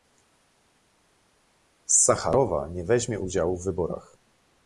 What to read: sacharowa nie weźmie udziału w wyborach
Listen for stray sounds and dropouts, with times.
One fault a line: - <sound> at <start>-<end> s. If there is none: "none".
none